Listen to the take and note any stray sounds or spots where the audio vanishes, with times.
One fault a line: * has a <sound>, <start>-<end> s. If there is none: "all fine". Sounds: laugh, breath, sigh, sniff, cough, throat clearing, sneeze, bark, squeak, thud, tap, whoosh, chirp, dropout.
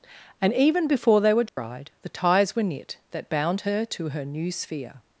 * has a dropout, 1.5-1.6 s